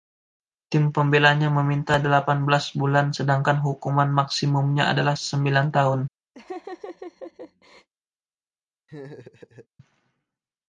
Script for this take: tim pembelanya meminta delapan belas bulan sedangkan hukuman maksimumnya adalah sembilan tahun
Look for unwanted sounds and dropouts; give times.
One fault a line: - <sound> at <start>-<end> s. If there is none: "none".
- laugh at 6.3-7.9 s
- laugh at 8.9-9.7 s